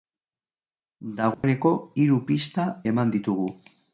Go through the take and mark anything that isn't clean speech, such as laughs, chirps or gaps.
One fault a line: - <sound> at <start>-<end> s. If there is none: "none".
- dropout at 1.3-1.4 s